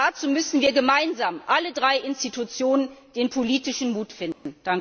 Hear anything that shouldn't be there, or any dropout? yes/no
yes